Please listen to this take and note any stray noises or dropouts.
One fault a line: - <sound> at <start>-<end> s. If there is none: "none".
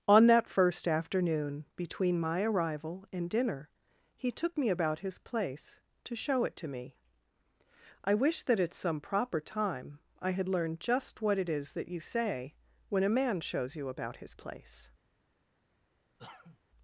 - cough at 16.2-16.6 s